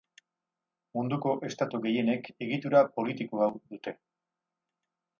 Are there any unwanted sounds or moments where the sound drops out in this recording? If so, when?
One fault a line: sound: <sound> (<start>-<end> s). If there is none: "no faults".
no faults